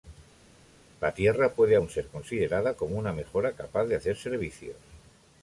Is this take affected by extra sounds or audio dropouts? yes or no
no